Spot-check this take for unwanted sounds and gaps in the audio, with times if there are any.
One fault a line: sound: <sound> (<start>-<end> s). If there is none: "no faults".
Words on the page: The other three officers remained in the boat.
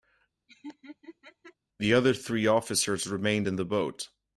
sound: laugh (0.5-1.5 s)